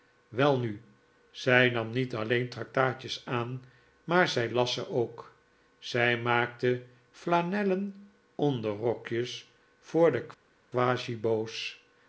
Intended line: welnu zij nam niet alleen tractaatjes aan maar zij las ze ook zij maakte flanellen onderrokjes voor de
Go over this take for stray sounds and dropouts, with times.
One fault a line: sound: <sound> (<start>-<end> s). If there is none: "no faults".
no faults